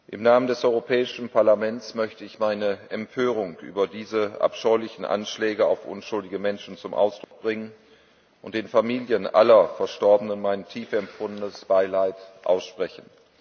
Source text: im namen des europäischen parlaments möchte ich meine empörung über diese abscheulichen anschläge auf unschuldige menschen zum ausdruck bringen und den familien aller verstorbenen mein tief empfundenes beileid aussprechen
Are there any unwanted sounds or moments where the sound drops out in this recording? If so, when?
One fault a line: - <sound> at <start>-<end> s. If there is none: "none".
- dropout at 7.2-7.3 s